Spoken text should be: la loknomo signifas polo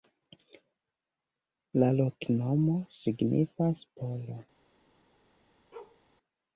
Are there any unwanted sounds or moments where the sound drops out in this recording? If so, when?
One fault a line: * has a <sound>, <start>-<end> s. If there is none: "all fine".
* has a bark, 5.7-6.0 s